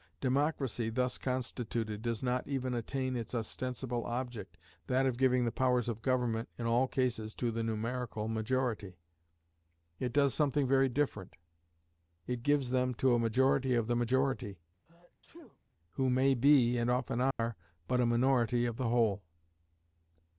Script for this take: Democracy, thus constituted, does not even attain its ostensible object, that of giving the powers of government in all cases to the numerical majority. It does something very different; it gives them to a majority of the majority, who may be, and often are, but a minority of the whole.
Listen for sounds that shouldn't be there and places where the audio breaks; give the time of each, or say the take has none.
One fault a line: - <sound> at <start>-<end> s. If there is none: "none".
- sneeze at 14.9-15.6 s
- dropout at 17.3-17.4 s